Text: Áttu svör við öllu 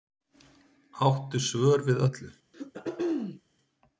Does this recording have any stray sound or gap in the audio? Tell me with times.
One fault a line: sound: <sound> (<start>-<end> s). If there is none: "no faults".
sound: throat clearing (2.5-3.4 s)